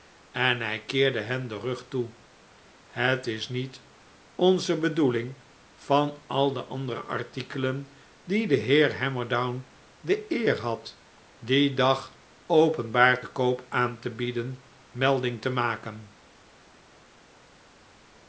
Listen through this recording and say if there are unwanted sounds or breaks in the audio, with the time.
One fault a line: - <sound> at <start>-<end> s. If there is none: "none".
none